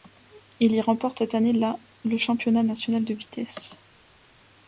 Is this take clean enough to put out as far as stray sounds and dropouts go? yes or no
yes